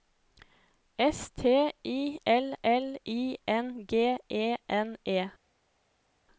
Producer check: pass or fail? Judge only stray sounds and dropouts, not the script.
pass